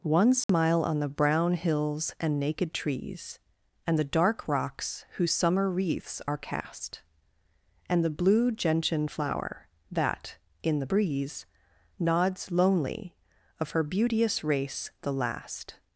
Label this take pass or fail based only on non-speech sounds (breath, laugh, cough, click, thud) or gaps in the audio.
fail